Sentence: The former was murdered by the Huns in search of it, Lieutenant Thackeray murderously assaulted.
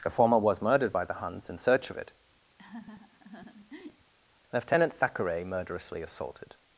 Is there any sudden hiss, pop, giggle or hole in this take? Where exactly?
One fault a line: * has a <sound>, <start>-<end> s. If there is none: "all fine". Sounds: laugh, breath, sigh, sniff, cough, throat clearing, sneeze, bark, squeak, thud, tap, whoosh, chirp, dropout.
* has a laugh, 2.6-4.1 s